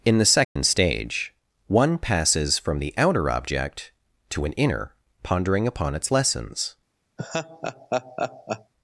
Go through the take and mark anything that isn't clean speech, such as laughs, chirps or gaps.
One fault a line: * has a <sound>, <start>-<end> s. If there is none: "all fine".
* has a dropout, 0.4-0.6 s
* has a laugh, 7.2-8.7 s